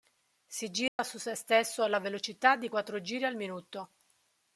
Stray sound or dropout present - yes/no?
yes